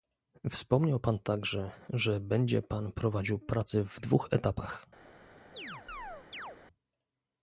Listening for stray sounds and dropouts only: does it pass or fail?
fail